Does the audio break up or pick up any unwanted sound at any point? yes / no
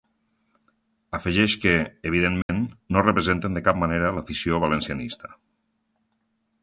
yes